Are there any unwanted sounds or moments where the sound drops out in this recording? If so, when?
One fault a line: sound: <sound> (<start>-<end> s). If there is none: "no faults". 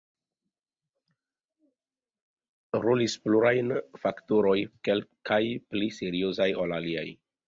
no faults